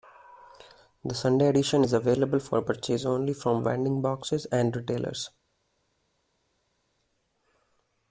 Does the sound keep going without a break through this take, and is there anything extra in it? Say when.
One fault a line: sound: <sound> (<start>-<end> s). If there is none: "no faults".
no faults